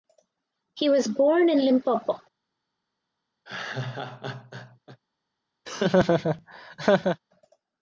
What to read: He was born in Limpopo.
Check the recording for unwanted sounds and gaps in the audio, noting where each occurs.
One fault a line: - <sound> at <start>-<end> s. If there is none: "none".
- laugh at 3.4-5.0 s
- laugh at 5.6-7.2 s